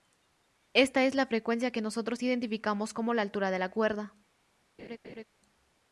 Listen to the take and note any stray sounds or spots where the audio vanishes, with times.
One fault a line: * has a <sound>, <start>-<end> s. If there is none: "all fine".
* has a laugh, 4.8-5.2 s